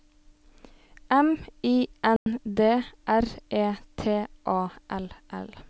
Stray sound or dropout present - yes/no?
yes